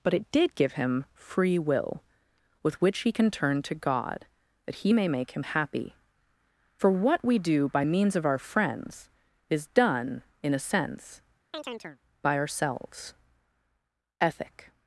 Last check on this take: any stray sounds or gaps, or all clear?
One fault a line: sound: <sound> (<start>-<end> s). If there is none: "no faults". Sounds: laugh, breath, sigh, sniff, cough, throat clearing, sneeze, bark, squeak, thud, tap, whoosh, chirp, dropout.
sound: chirp (11.5-12.0 s)